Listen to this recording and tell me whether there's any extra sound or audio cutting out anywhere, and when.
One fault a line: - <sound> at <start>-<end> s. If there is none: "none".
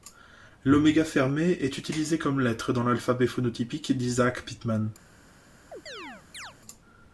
- chirp at 5.7-6.5 s